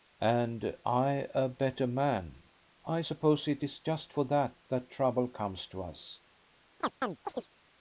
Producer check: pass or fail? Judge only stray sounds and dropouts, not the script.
fail